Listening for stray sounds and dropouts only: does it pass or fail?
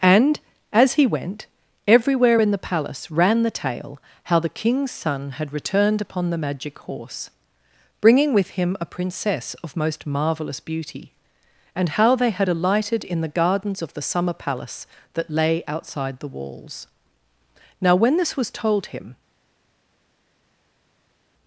pass